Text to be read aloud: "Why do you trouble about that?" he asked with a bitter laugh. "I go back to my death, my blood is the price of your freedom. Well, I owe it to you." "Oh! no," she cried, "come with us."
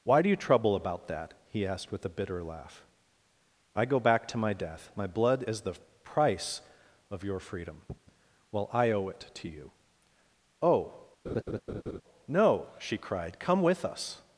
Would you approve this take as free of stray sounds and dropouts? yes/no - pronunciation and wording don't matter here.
no